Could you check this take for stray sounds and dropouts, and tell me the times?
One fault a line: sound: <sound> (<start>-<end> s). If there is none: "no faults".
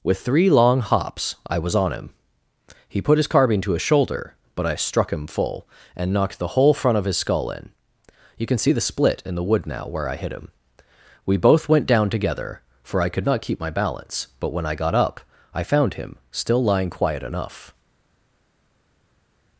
no faults